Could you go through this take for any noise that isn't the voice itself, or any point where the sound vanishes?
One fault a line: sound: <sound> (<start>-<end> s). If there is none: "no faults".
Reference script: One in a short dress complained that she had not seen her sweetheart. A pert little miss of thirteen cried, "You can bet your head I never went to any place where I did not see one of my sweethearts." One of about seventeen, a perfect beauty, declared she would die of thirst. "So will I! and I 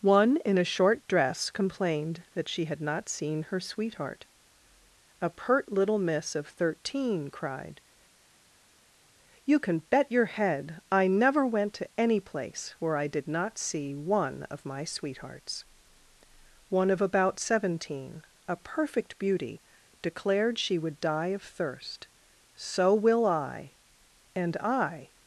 no faults